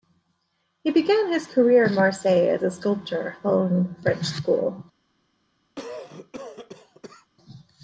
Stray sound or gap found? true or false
true